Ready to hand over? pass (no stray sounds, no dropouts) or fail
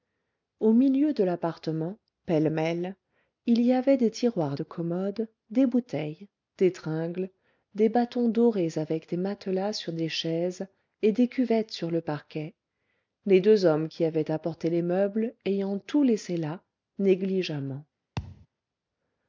fail